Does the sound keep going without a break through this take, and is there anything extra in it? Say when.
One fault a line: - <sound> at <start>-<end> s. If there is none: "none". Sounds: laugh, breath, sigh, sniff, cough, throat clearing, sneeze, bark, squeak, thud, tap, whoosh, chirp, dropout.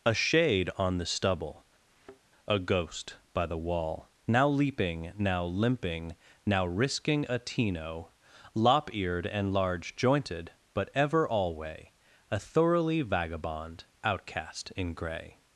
- thud at 1.9-2.2 s